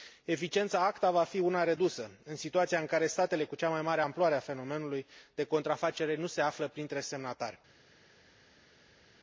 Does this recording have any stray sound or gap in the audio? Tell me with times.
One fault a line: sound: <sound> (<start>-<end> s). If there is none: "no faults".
no faults